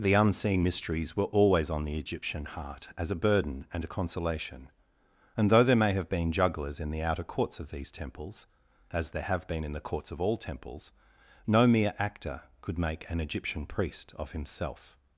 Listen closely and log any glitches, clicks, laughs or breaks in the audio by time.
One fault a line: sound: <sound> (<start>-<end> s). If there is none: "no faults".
no faults